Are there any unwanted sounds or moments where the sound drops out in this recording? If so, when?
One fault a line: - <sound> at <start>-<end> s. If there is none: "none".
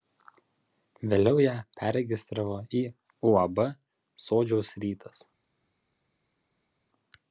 none